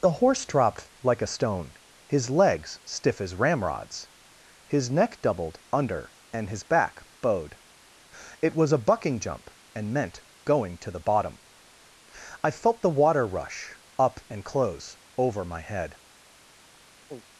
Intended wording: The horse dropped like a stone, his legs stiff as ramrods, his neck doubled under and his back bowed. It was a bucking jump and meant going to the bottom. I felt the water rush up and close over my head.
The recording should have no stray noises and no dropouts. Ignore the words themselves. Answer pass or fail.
fail